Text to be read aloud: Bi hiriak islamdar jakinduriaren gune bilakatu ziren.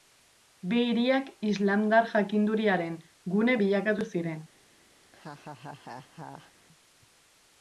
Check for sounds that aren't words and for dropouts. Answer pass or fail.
fail